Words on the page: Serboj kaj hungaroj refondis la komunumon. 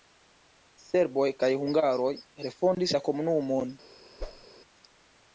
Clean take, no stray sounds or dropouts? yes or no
no